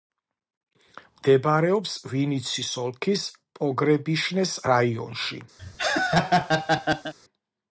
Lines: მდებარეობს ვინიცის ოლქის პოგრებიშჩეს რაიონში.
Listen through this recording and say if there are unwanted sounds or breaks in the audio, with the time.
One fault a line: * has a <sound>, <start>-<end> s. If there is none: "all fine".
* has a laugh, 5.6-7.1 s